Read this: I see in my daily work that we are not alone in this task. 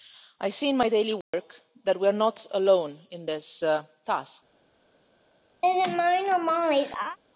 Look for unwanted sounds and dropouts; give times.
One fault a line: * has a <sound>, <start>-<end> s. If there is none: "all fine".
* has a dropout, 1.2-1.3 s
* has a laugh, 5.6-7.2 s